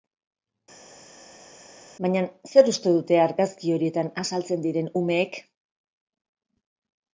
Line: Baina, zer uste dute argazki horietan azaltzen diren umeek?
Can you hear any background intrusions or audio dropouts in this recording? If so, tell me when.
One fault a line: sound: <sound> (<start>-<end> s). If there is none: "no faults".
no faults